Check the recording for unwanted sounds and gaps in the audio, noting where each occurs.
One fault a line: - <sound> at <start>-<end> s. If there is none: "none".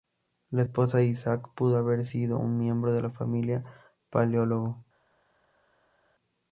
none